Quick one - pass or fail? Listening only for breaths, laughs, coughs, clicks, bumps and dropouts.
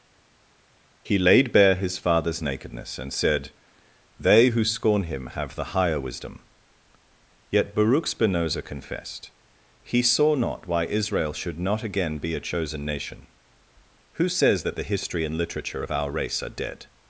pass